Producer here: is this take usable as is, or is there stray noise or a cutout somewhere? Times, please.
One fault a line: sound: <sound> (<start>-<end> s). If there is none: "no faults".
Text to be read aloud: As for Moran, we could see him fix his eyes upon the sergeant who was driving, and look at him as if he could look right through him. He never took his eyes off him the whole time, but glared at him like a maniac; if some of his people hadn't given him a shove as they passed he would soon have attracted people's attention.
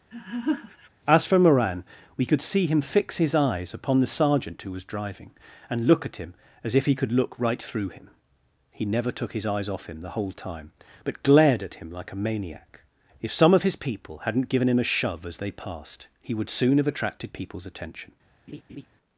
sound: laugh (0.1-0.9 s)
sound: laugh (18.5-18.9 s)